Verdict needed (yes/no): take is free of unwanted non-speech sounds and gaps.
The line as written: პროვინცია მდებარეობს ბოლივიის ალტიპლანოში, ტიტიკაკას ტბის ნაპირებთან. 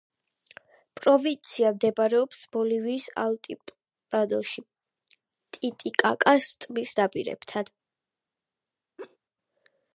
no